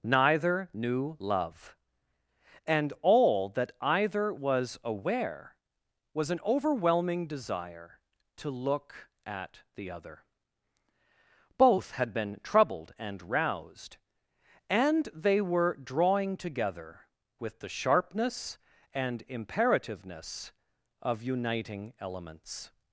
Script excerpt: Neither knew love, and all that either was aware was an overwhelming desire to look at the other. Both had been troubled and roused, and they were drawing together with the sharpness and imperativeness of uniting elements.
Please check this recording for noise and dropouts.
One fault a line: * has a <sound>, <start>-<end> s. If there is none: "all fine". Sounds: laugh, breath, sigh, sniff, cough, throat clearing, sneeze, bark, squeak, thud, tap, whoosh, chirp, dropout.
all fine